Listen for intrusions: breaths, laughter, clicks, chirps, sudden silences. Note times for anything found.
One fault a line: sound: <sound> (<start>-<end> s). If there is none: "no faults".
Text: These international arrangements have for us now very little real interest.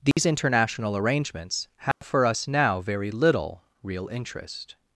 sound: dropout (0.1-0.2 s)
sound: dropout (1.9-2.0 s)